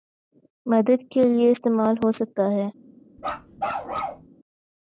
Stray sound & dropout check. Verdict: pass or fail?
fail